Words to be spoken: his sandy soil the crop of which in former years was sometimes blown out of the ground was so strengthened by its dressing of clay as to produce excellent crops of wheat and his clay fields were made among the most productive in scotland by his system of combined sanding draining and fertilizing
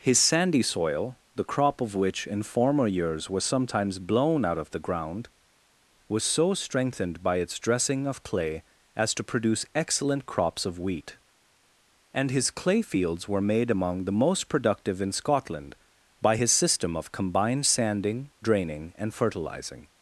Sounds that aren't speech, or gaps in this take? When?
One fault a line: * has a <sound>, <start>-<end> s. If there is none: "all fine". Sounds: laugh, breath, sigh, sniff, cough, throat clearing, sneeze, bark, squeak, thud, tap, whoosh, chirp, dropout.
all fine